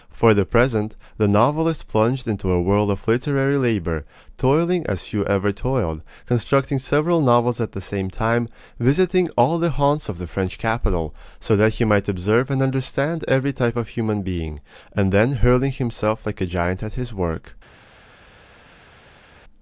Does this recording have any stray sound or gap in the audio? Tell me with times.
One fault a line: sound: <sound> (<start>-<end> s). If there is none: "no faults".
no faults